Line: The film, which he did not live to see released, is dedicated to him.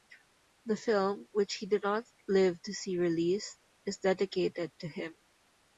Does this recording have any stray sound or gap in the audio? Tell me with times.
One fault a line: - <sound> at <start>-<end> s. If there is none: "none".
none